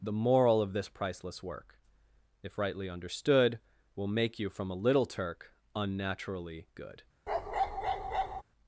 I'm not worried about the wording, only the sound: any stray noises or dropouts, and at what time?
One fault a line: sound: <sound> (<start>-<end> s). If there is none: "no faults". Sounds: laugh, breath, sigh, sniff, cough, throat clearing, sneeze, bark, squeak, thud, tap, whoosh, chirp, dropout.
sound: bark (7.3-8.4 s)